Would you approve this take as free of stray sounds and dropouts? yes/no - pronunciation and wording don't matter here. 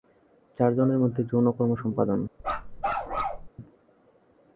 no